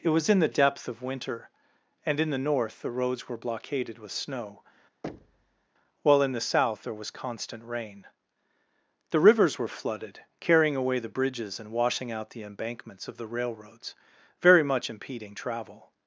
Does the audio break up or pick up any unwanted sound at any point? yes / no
yes